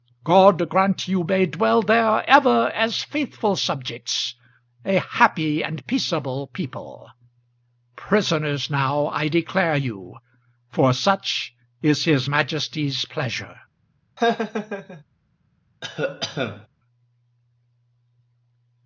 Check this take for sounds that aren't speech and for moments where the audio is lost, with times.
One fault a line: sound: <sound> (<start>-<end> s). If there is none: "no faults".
sound: laugh (14.2-15.0 s)
sound: cough (15.8-16.7 s)